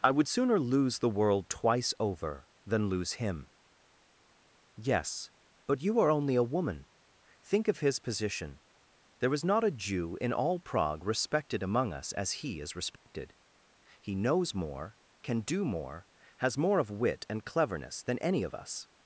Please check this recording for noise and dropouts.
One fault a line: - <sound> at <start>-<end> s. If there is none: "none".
- dropout at 13.0-13.1 s